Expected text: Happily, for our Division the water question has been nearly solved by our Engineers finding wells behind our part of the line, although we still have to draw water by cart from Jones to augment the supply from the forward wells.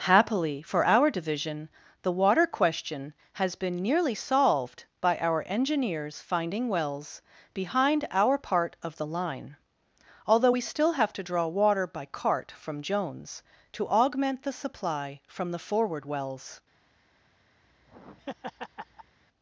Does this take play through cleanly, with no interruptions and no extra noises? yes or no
no